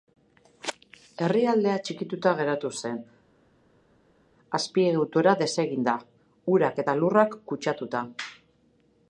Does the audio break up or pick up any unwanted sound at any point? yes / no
no